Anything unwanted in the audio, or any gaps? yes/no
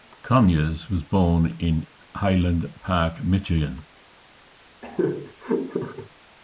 yes